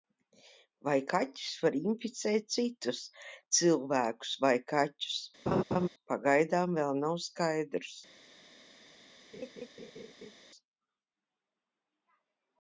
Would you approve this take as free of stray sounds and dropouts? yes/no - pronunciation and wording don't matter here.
no